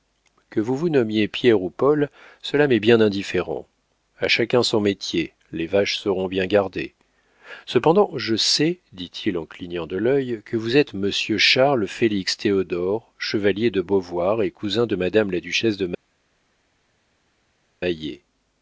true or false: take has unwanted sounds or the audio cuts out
false